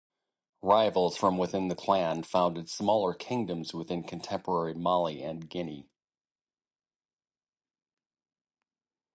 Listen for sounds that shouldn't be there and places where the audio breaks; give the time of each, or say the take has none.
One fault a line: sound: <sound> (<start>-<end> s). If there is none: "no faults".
no faults